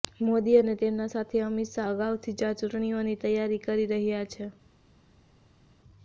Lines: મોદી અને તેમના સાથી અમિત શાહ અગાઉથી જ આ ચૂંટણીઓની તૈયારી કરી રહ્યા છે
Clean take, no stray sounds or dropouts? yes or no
yes